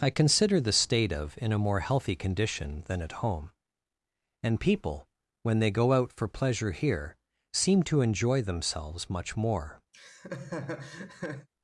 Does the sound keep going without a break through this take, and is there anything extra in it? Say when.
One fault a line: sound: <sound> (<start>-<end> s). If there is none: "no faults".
sound: laugh (9.9-11.5 s)